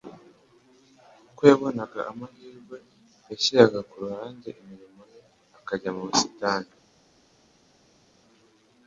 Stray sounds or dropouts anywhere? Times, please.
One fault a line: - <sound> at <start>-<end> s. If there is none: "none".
none